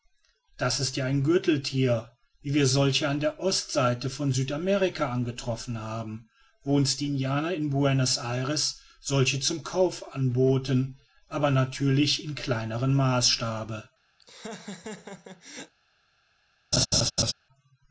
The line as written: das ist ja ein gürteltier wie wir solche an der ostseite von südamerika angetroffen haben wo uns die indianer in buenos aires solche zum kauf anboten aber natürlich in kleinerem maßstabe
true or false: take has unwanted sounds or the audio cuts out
true